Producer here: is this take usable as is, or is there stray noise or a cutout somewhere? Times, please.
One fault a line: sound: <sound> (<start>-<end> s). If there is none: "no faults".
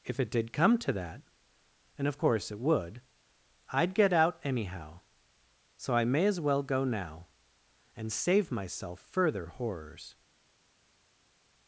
no faults